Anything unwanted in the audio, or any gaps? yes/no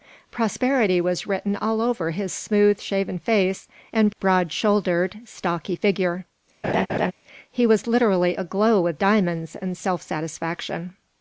yes